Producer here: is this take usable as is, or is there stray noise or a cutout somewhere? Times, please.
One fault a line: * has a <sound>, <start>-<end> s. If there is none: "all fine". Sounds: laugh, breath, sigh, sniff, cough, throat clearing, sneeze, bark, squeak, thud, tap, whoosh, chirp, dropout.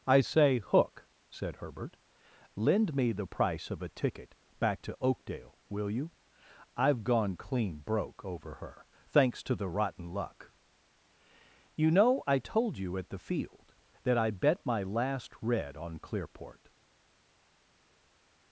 all fine